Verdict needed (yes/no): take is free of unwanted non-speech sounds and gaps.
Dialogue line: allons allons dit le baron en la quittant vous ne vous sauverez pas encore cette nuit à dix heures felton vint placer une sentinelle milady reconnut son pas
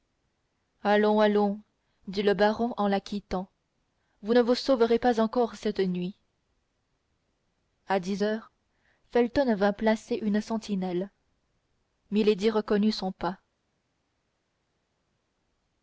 yes